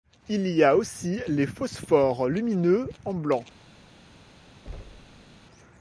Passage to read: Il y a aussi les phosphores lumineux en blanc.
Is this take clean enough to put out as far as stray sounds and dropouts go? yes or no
no